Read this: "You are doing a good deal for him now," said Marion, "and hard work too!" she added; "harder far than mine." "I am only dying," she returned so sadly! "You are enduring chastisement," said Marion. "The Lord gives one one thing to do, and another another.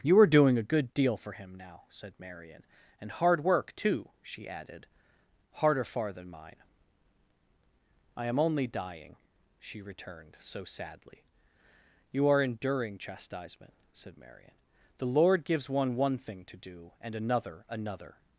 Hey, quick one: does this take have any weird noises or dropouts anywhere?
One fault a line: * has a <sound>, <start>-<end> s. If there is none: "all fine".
all fine